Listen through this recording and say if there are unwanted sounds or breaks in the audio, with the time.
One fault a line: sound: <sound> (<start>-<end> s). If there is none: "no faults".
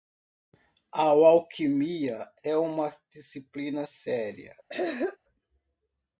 sound: throat clearing (4.7-5.2 s)